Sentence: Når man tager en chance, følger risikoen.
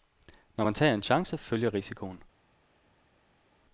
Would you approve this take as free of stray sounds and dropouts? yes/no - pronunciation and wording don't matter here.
yes